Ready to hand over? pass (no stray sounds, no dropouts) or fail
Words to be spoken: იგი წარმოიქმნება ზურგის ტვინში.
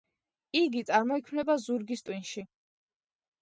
pass